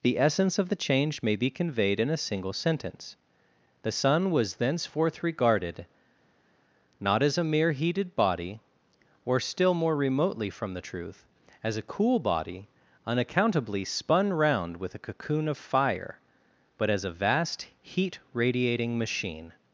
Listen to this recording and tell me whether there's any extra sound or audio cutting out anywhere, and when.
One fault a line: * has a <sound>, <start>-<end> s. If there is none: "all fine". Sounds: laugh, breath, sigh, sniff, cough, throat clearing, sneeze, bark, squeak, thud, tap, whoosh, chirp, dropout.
all fine